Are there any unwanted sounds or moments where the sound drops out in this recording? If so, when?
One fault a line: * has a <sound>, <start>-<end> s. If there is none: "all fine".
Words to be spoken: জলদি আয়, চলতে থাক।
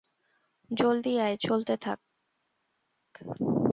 all fine